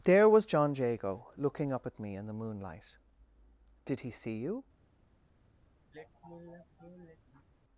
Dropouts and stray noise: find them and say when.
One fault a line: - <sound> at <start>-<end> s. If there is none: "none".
- sigh at 5.9-7.5 s